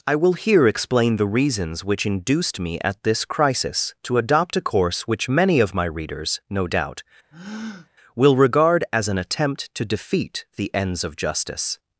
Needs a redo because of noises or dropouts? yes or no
yes